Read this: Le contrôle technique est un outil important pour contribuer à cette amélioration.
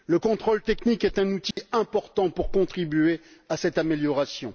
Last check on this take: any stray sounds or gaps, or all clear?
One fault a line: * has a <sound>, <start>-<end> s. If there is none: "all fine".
* has a dropout, 1.5-1.6 s